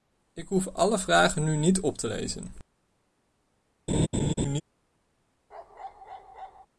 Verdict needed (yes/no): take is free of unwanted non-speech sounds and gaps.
no